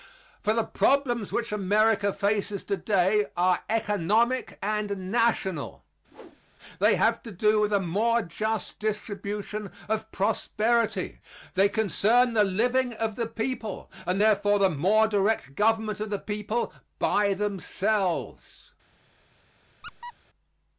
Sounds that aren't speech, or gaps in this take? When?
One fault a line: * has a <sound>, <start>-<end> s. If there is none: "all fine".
* has a whoosh, 6.1-6.4 s
* has a squeak, 19.8-20.1 s